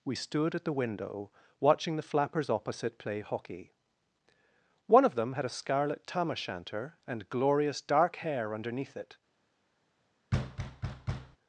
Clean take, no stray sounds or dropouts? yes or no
no